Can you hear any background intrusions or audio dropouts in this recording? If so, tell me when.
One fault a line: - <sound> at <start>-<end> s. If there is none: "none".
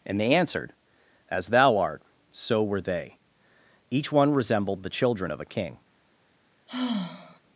- sigh at 6.7-7.4 s